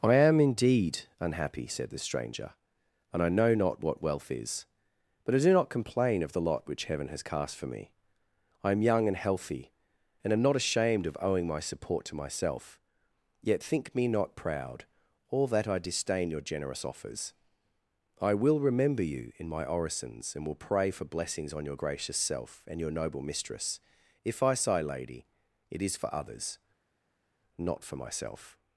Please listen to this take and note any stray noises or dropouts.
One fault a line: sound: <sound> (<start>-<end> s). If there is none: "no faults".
no faults